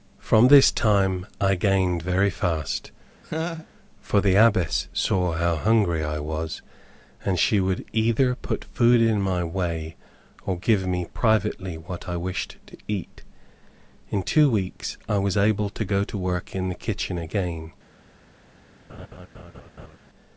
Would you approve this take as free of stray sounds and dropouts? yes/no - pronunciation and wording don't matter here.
no